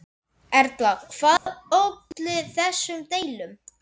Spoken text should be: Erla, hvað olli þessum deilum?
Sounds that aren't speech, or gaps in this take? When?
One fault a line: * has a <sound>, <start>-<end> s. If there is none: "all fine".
* has a dropout, 1.4-1.5 s